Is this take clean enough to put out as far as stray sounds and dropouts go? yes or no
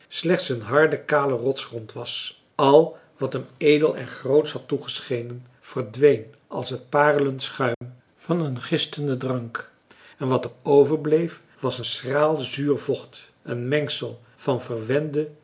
no